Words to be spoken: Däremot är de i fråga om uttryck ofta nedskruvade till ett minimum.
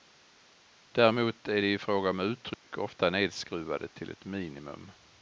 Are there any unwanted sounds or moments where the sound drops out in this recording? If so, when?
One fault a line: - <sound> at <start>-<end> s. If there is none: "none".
- dropout at 2.5-2.6 s